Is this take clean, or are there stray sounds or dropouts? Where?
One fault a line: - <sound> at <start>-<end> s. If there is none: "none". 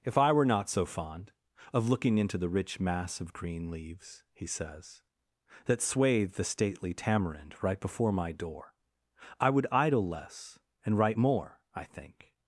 none